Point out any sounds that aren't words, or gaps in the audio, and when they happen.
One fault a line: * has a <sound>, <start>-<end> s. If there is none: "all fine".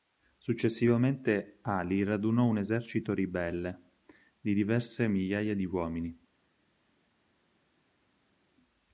all fine